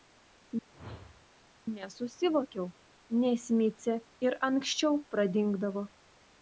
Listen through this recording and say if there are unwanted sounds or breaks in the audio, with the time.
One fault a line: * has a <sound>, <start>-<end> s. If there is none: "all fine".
* has a whoosh, 0.7-1.3 s